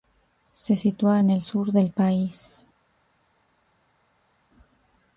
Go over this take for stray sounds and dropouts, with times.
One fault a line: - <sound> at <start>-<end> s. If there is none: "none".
none